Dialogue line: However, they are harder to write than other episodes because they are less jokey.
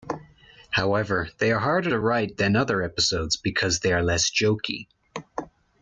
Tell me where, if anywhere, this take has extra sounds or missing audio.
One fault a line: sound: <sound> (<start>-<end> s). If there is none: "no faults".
no faults